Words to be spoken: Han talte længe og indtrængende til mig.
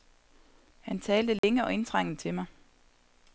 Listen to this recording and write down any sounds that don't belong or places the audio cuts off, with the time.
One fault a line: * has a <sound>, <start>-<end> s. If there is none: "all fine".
* has a dropout, 1.4-1.4 s